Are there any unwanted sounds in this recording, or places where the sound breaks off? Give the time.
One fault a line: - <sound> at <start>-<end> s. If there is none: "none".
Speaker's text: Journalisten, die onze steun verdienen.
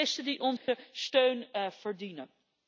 - dropout at 0.6-0.7 s